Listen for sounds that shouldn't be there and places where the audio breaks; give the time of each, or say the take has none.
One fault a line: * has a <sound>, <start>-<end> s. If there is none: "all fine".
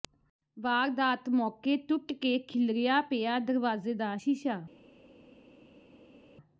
all fine